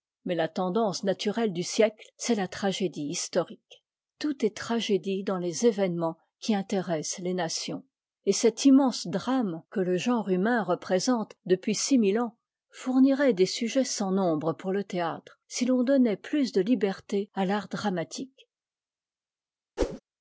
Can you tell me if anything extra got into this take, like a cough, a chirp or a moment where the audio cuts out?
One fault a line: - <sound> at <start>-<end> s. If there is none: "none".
- whoosh at 19.8-20.0 s